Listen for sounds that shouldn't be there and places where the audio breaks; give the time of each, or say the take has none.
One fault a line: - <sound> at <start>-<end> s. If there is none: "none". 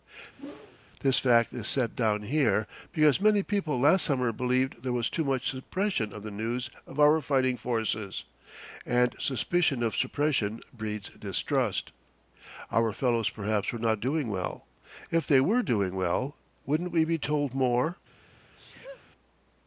- whoosh at 0.4-0.8 s
- sneeze at 18.6-19.1 s